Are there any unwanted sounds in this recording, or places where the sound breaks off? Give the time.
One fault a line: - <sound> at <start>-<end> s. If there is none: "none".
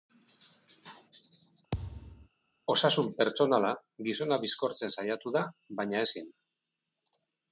- thud at 1.7-2.3 s